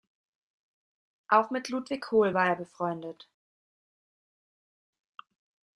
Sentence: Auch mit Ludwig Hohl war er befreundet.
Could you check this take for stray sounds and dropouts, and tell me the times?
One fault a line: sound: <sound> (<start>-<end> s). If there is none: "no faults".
no faults